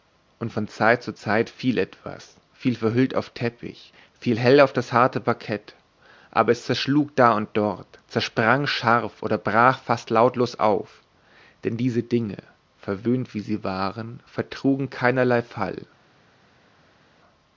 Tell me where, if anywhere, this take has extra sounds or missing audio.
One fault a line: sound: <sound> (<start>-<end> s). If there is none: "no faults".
no faults